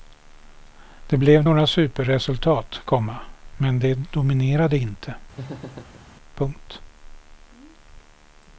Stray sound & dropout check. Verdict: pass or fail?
fail